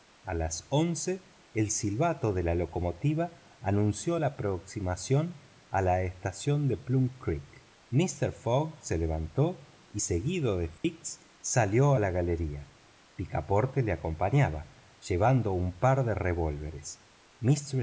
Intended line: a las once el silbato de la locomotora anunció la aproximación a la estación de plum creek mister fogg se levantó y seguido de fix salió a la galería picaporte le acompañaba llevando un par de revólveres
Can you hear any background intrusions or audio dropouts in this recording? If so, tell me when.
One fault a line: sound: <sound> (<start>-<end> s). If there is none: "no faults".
sound: dropout (10.8-10.8 s)